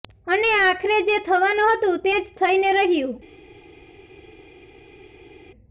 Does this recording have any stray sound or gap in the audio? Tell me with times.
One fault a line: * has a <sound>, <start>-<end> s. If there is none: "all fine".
all fine